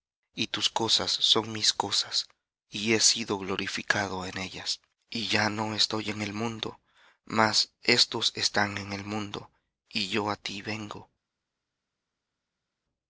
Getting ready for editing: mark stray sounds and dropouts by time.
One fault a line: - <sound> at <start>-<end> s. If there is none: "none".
none